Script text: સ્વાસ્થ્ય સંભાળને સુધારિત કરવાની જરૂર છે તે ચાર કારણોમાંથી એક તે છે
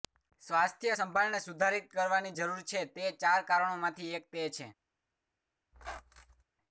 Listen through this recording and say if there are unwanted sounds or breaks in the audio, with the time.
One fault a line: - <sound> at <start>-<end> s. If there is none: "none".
- squeak at 5.7-6.4 s